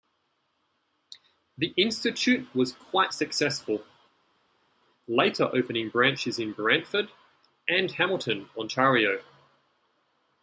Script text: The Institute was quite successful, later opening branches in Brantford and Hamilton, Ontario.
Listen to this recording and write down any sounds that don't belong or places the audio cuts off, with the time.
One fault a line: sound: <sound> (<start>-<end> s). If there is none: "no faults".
no faults